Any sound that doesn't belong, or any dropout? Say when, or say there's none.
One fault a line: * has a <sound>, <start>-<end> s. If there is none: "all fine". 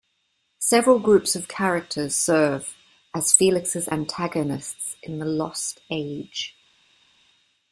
all fine